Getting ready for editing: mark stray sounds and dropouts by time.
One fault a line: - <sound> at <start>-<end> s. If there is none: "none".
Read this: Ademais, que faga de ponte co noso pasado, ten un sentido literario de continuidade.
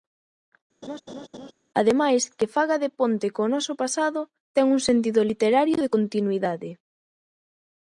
- laugh at 0.8-1.5 s